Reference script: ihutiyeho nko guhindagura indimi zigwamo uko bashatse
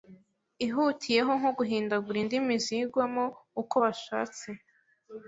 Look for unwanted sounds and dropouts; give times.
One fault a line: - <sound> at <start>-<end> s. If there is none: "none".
none